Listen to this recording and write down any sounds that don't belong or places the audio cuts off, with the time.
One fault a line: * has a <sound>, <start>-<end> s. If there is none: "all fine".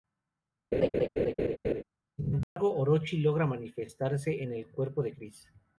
* has a laugh, 0.7-1.8 s
* has a dropout, 2.4-2.6 s